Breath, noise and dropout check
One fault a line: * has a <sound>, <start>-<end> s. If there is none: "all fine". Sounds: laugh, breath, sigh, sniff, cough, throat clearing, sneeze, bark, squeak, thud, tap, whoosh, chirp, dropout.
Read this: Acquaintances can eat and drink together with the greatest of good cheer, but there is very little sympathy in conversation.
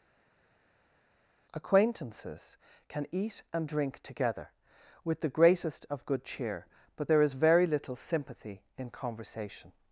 all fine